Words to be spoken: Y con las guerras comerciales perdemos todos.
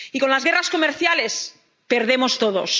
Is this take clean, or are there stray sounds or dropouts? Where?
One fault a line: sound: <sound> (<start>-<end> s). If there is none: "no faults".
no faults